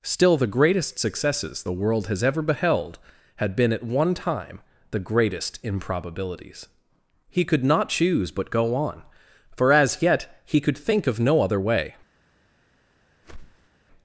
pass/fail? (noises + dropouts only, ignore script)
fail